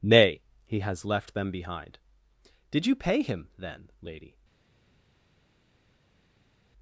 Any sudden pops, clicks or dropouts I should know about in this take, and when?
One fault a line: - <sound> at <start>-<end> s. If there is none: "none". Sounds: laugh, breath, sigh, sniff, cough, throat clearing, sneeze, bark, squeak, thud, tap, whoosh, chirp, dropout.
none